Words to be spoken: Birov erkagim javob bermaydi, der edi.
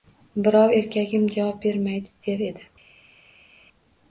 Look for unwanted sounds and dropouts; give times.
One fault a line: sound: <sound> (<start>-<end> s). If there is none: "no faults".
no faults